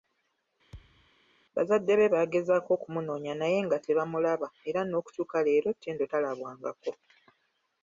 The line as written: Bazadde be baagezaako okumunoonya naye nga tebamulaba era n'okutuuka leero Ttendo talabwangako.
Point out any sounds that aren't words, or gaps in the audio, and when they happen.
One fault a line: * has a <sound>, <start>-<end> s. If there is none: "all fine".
* has a thud, 0.7-1.1 s